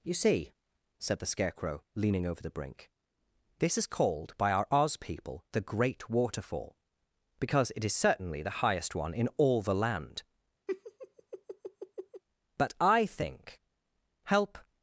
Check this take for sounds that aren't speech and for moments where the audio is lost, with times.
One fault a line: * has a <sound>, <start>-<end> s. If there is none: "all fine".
* has a laugh, 10.7-12.2 s